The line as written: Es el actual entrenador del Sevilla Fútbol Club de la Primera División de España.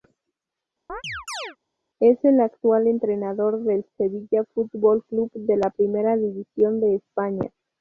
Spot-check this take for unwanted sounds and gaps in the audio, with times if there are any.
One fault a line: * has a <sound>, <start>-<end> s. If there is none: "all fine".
* has a chirp, 0.9-1.6 s